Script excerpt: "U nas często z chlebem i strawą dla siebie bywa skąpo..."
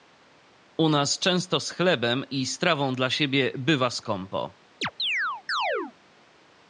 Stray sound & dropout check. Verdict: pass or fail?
fail